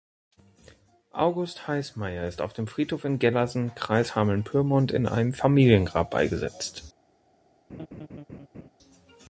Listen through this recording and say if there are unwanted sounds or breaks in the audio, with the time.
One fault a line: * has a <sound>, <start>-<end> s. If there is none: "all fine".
* has a laugh, 7.7-8.7 s